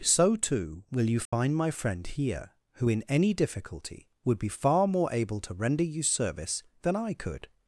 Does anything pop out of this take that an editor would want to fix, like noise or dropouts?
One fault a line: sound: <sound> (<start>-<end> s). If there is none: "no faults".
sound: dropout (1.3-1.3 s)